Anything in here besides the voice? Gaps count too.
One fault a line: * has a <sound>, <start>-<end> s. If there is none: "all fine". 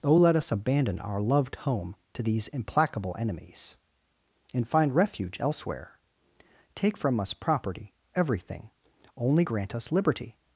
all fine